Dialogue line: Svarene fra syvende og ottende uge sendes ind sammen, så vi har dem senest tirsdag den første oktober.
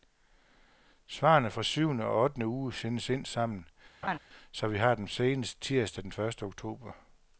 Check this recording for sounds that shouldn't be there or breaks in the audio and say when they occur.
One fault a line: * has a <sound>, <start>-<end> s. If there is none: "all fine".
* has a laugh, 4.0-4.2 s